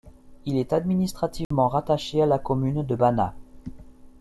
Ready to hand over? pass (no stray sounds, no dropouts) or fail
fail